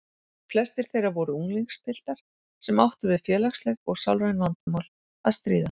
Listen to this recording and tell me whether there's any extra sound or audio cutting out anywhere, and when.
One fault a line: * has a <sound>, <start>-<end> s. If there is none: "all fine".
* has a dropout, 4.6-4.7 s